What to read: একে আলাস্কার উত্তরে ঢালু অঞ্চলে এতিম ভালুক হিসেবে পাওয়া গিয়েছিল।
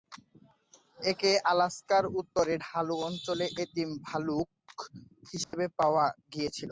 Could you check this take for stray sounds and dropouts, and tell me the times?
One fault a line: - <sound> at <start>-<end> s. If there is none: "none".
- dropout at 5.4-5.5 s